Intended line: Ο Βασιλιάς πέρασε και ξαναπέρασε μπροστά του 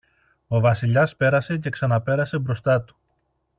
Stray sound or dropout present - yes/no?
no